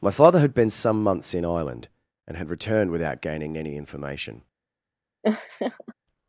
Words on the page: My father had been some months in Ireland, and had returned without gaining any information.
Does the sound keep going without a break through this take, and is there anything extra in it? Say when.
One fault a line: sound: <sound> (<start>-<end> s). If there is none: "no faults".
sound: laugh (5.2-5.9 s)